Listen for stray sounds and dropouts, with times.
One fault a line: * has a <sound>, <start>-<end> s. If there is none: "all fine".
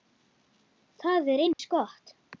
* has a dropout, 1.5-1.6 s